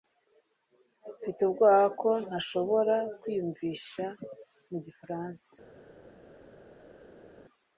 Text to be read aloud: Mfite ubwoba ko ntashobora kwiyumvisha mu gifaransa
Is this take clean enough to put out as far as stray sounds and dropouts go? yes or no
yes